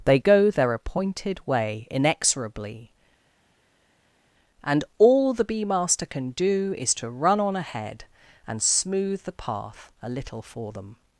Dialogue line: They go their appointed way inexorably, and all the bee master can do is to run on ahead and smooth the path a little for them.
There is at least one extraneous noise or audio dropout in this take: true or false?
false